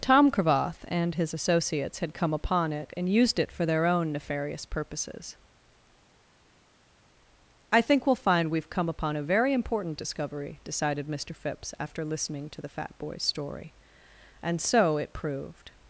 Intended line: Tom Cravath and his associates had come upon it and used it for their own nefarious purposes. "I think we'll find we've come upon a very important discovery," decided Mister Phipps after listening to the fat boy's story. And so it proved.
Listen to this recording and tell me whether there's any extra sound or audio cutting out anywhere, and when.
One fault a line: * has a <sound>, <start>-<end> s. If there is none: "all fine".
all fine